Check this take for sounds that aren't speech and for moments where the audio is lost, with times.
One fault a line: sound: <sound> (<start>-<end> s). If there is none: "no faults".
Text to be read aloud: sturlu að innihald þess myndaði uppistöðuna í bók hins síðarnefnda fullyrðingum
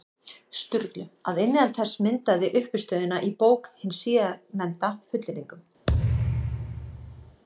sound: thud (5.9-7.4 s)